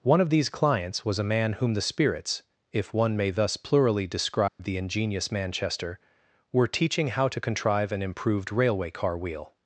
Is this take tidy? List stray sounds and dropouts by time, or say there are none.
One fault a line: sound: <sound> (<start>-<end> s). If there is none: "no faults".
sound: dropout (4.5-4.6 s)